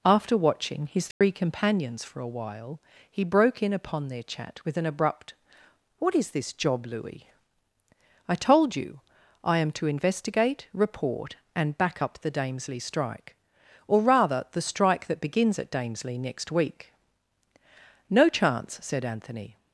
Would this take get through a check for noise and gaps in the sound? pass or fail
fail